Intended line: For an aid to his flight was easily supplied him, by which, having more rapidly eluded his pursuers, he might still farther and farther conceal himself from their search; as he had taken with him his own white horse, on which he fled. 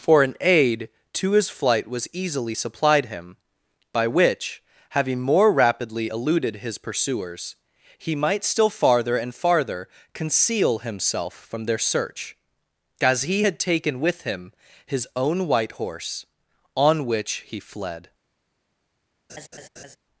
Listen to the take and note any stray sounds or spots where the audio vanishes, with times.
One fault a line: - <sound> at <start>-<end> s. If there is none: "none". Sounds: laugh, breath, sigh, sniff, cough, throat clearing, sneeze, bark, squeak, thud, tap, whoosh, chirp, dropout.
- laugh at 19.3-20.0 s